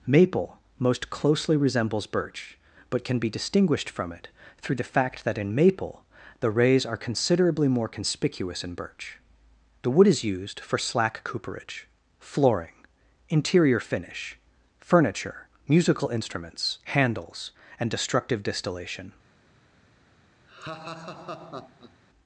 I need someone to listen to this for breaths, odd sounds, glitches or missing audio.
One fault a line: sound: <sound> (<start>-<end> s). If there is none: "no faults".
sound: laugh (20.5-22.0 s)